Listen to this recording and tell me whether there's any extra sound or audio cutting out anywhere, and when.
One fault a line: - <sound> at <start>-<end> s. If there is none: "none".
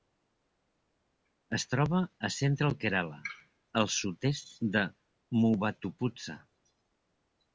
none